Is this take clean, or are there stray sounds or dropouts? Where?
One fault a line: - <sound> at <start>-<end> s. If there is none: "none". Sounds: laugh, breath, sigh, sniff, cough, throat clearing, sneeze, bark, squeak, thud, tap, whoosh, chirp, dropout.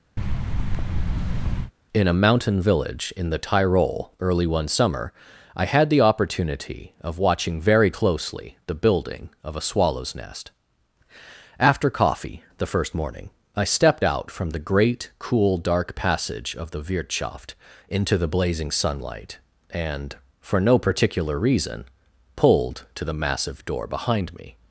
- thud at 0.2-1.7 s